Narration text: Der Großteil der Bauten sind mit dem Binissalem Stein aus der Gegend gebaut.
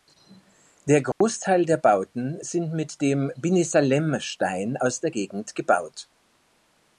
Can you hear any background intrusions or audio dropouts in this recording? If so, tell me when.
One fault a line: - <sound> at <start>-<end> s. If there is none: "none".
- dropout at 1.1-1.2 s